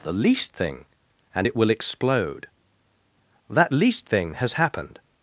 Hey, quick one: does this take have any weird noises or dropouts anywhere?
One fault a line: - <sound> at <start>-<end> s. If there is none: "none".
none